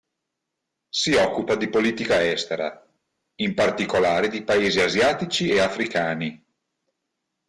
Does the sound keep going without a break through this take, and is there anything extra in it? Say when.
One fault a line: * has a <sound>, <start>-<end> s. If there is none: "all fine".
all fine